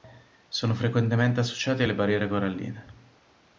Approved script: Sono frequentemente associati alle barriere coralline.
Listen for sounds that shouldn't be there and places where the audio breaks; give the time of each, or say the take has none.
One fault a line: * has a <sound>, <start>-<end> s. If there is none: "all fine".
all fine